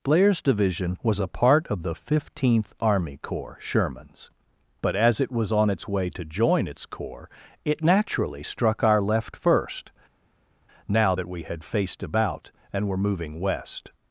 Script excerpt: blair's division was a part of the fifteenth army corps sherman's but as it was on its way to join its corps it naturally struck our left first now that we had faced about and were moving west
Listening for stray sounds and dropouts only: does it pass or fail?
pass